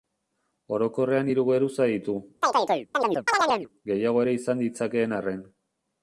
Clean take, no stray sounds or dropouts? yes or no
no